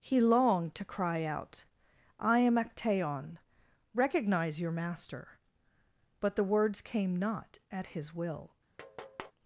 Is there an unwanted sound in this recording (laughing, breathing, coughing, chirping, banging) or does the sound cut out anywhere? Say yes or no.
yes